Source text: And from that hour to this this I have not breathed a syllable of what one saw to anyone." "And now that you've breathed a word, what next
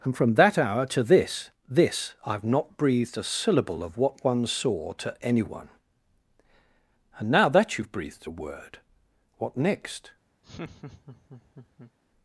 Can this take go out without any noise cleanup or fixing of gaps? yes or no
no